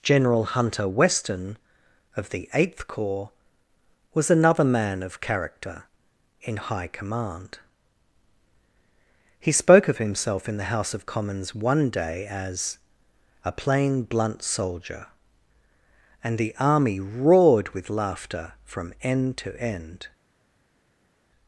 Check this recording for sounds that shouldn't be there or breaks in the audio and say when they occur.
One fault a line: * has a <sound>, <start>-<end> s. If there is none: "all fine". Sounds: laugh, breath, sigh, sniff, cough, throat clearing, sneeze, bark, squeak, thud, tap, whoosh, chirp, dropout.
all fine